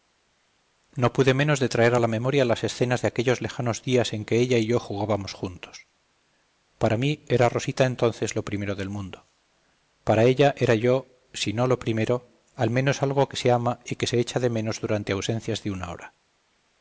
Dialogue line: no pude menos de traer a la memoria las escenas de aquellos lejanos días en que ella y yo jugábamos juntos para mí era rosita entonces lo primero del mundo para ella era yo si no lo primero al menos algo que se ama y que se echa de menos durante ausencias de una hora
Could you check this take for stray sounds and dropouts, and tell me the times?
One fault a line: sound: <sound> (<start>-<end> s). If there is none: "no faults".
no faults